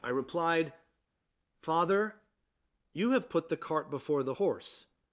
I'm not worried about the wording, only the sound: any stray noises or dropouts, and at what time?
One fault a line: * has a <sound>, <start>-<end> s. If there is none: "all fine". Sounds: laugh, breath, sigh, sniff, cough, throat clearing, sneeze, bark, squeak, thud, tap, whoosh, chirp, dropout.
all fine